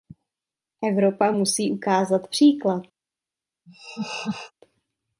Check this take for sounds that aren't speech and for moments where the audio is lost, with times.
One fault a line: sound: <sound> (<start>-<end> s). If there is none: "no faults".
sound: laugh (3.7-4.5 s)